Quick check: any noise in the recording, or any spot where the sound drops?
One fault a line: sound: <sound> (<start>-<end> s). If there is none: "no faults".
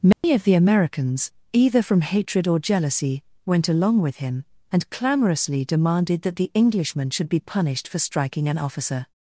sound: dropout (0.1-0.2 s)